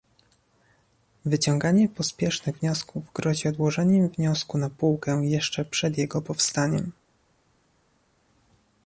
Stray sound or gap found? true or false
false